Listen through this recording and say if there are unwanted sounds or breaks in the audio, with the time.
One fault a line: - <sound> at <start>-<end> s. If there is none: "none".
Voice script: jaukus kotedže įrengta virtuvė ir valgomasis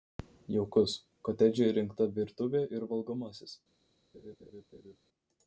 - laugh at 4.1-5.0 s